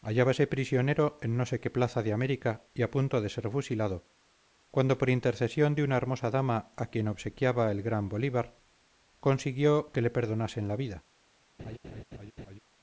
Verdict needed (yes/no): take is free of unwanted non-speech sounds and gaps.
no